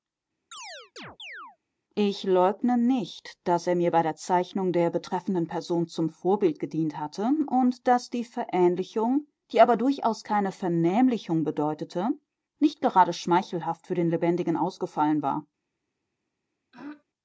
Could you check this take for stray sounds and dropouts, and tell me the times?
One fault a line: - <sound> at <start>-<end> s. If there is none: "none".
- chirp at 0.5-1.6 s
- throat clearing at 16.7-17.0 s